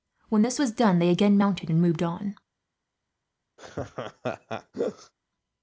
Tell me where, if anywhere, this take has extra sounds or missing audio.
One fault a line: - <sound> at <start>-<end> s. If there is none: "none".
- laugh at 3.6-5.1 s